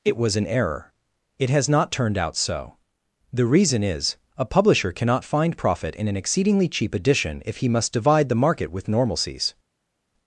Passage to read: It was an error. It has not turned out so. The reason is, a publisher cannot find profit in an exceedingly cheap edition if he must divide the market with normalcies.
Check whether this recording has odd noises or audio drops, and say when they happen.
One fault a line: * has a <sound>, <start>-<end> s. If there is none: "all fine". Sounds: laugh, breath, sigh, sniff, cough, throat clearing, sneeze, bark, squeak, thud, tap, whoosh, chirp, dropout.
all fine